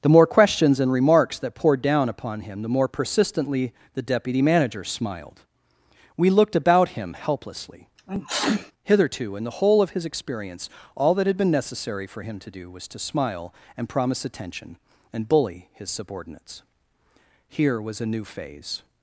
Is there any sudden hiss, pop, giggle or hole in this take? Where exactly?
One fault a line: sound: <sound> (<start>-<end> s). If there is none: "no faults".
sound: sneeze (8.0-8.7 s)